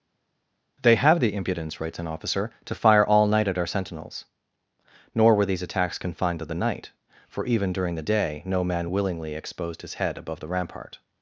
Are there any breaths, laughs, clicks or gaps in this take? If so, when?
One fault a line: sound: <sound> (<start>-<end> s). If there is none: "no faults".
no faults